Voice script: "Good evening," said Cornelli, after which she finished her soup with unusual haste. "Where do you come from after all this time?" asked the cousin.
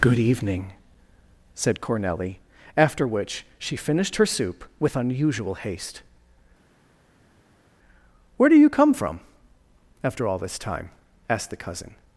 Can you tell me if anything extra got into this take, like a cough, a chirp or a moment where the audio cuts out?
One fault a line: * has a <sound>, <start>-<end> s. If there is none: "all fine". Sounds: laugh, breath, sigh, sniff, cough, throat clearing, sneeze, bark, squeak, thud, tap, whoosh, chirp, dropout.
all fine